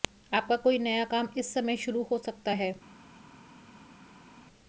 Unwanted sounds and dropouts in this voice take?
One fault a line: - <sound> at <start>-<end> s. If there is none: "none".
none